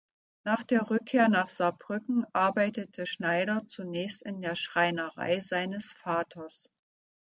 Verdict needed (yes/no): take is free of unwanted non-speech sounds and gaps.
yes